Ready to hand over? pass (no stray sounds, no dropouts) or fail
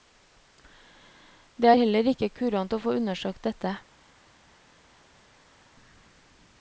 pass